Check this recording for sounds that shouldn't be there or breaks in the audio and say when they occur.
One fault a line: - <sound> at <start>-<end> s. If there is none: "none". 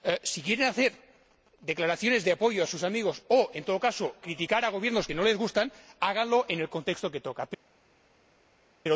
none